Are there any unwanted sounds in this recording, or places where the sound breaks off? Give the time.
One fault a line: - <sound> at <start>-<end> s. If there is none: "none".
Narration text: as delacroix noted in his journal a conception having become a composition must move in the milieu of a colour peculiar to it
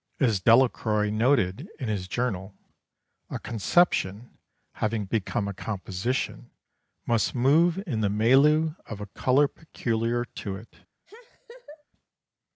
- laugh at 11.1-11.8 s